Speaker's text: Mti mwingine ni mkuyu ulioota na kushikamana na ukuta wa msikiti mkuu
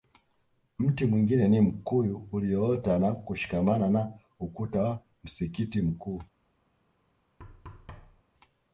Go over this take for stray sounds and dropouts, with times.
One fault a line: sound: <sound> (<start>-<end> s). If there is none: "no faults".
sound: thud (7.4-8.2 s)